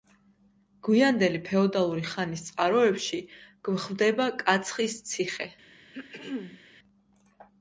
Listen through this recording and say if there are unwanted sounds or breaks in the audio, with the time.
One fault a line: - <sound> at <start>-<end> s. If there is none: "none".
- throat clearing at 5.9-6.6 s